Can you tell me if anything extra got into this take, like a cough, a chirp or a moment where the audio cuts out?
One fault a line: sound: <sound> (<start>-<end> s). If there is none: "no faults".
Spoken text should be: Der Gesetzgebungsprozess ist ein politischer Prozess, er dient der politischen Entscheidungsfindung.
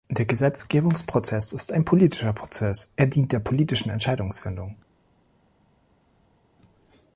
no faults